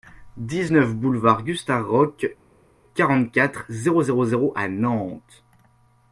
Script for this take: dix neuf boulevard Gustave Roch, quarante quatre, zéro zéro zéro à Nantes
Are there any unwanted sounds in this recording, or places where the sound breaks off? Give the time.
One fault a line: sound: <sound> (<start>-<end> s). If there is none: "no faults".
no faults